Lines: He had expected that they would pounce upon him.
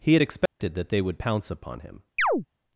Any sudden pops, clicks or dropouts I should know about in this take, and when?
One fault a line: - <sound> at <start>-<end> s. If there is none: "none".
- dropout at 0.5-0.6 s
- chirp at 2.2-2.5 s